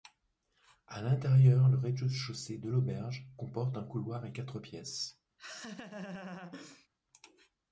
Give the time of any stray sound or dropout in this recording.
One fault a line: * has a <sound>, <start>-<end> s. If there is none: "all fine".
* has a laugh, 5.4-6.9 s